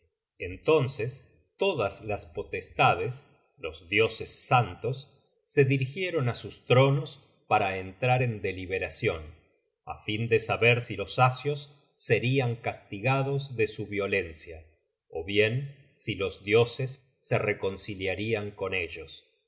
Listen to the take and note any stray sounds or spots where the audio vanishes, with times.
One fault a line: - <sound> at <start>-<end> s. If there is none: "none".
none